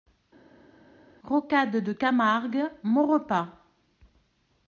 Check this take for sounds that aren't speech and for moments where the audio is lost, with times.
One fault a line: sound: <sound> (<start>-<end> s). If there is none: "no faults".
no faults